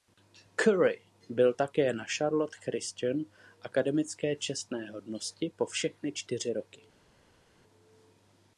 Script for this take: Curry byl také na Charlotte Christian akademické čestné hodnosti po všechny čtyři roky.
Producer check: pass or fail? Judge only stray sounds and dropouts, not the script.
pass